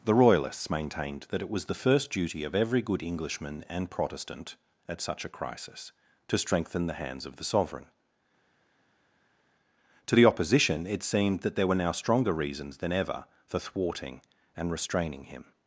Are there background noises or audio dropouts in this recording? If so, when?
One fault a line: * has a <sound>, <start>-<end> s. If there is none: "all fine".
all fine